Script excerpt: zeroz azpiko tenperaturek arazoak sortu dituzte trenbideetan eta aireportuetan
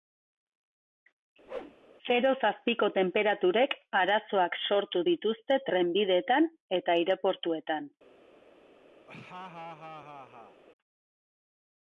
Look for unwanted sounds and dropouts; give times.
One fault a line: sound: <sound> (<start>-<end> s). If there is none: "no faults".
sound: whoosh (1.5-1.8 s)
sound: laugh (9.1-10.6 s)